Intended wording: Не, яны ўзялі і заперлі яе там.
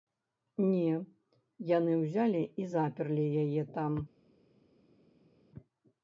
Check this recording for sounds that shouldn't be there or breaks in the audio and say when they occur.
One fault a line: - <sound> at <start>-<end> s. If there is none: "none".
none